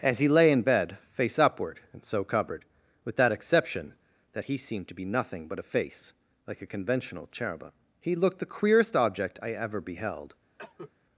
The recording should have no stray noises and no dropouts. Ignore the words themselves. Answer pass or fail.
fail